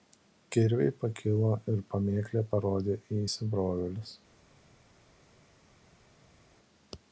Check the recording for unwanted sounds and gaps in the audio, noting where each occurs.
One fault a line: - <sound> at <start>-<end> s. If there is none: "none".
none